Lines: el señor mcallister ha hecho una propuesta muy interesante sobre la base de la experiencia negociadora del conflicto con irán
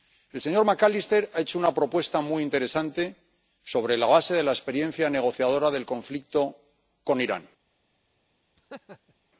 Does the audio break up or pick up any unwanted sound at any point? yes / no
yes